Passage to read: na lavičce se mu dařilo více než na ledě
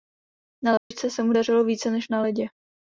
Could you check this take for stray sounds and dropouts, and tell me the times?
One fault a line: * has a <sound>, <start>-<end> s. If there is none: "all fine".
* has a dropout, 0.8-0.9 s